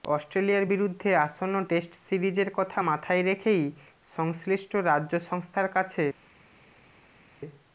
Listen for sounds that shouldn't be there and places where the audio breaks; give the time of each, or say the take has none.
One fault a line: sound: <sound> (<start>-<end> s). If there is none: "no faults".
no faults